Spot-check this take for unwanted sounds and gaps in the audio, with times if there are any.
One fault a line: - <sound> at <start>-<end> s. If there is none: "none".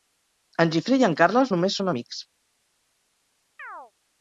- chirp at 3.6-3.9 s